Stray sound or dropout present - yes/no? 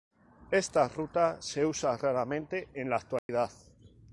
yes